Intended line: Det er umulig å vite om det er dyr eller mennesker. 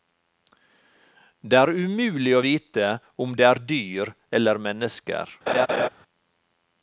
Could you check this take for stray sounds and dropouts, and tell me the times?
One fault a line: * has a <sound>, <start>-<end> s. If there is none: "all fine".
* has a laugh, 5.5-5.9 s